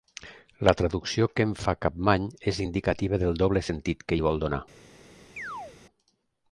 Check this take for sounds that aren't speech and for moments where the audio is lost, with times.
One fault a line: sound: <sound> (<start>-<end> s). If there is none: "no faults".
sound: chirp (5.4-5.8 s)